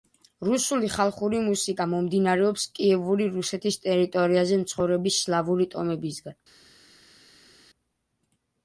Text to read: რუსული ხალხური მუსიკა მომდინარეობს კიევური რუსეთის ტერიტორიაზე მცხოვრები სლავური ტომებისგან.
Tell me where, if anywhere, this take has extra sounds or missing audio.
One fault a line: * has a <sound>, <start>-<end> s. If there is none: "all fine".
all fine